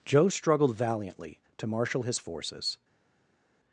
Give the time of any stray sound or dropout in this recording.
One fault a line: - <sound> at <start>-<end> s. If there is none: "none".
none